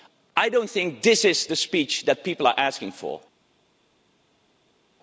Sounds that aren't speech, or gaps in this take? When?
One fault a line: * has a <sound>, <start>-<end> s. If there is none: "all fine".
all fine